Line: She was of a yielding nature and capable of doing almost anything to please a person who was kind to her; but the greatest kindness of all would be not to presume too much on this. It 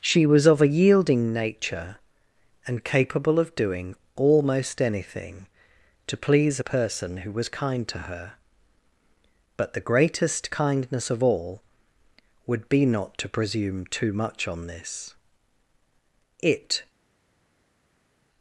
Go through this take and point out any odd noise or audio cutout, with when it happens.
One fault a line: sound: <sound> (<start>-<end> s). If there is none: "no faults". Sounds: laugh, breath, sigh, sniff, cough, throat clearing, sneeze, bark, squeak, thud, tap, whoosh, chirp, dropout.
no faults